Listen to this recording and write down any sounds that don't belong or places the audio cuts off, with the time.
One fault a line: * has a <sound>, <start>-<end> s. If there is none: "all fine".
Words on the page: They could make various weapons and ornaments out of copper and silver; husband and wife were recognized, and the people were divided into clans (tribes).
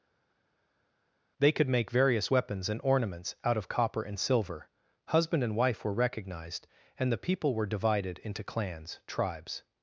all fine